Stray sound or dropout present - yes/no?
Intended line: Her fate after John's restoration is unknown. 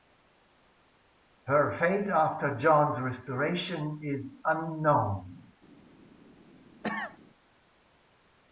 yes